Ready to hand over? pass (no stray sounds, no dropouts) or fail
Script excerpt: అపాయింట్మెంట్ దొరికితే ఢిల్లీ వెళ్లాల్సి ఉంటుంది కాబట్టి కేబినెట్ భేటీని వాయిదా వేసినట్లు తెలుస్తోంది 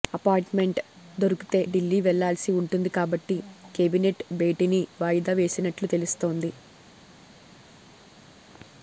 pass